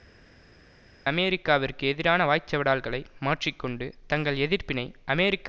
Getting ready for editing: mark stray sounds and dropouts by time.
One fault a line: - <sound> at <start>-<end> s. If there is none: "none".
none